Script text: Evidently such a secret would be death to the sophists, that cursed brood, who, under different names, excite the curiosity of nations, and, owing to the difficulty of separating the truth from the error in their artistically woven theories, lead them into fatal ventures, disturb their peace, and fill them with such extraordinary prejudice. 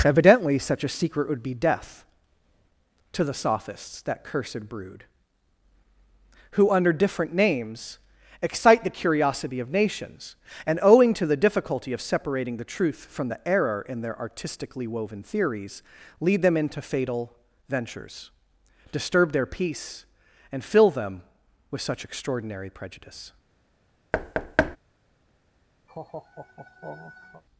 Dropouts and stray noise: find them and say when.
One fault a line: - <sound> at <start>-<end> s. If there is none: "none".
- thud at 24.1-24.8 s
- laugh at 25.9-27.4 s